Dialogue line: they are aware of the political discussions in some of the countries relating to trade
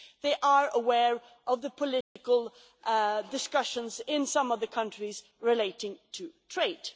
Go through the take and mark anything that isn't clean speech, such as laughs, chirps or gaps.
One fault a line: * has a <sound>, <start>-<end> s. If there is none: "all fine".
* has a dropout, 2.0-2.2 s